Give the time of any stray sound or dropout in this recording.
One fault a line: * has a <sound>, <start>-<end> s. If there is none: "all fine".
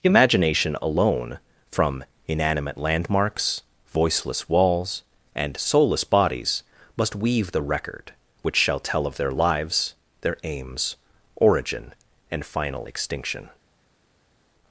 all fine